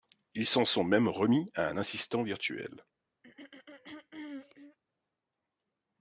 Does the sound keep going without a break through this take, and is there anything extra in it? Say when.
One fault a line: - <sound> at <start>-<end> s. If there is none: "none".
- throat clearing at 3.2-4.8 s